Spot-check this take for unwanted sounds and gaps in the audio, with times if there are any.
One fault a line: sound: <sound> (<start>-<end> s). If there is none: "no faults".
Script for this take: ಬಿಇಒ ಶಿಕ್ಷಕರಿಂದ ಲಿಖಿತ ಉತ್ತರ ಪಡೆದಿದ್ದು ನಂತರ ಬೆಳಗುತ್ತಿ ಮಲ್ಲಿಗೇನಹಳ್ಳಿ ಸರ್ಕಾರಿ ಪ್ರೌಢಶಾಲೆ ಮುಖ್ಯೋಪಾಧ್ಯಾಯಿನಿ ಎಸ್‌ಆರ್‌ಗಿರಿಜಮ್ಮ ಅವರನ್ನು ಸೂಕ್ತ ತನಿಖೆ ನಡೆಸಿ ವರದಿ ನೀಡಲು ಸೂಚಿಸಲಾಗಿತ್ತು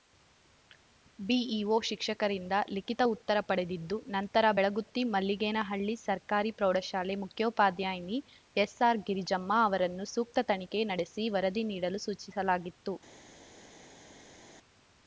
no faults